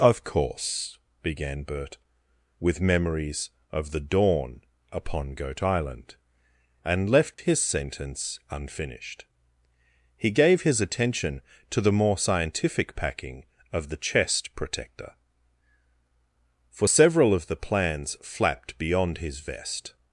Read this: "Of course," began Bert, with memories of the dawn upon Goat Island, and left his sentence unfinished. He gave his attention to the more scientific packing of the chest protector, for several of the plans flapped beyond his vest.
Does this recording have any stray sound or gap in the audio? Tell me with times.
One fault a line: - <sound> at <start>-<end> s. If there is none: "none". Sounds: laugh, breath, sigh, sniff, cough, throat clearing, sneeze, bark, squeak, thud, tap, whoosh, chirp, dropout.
- dropout at 7.3-7.4 s